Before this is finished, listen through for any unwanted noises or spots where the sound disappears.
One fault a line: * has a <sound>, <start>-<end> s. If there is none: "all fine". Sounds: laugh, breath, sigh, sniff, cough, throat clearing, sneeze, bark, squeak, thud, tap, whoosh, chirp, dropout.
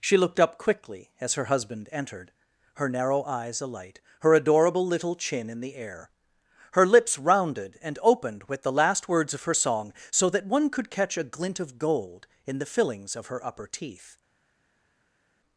all fine